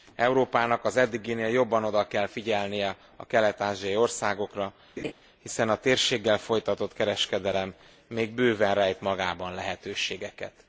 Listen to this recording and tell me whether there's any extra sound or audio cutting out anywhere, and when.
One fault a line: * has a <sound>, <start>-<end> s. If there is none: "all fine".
* has a laugh, 5.0-5.1 s